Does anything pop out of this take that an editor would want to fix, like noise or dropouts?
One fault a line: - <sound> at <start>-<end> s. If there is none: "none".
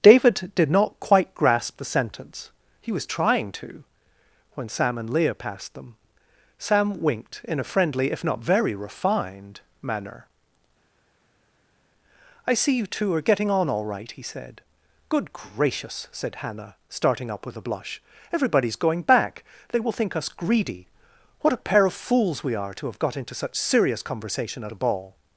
none